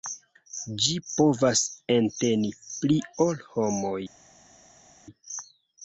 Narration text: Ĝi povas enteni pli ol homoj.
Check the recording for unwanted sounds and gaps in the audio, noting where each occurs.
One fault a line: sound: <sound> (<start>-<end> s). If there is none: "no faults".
no faults